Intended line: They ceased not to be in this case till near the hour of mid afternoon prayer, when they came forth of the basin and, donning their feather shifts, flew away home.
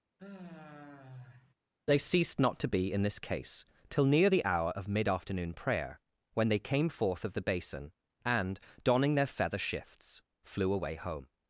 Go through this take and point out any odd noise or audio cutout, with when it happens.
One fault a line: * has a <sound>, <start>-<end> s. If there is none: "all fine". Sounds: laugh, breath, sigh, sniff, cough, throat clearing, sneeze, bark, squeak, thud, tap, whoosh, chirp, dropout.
* has a sigh, 0.2-1.5 s